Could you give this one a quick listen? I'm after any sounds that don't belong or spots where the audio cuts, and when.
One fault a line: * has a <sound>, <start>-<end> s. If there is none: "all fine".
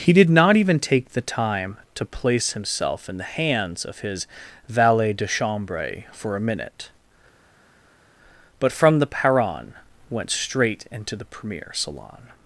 all fine